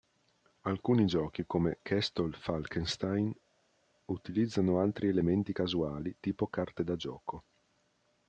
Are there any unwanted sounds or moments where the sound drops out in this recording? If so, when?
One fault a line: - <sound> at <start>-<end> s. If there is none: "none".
none